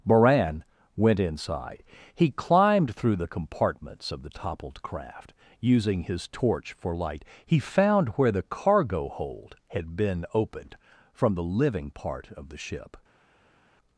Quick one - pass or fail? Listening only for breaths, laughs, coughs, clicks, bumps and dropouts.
pass